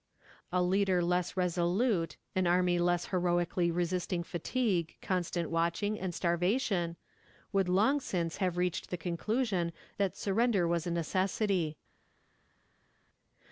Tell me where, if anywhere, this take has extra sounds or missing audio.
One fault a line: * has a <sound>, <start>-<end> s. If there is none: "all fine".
all fine